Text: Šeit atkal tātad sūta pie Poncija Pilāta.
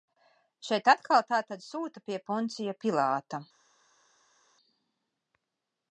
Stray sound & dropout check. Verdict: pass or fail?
pass